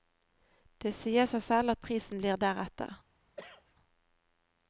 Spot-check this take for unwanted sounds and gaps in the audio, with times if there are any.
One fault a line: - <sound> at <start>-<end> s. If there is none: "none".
- cough at 3.4-3.7 s